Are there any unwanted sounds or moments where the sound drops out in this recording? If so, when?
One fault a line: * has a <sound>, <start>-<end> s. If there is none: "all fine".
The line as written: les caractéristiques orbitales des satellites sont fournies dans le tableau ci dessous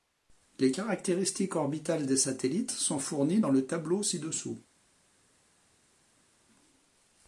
all fine